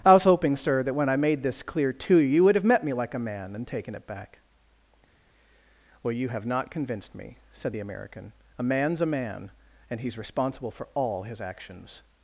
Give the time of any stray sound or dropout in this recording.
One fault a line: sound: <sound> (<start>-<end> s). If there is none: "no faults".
no faults